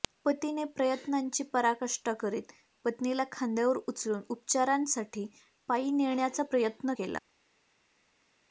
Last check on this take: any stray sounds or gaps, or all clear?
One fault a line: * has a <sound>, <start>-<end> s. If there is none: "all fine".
all fine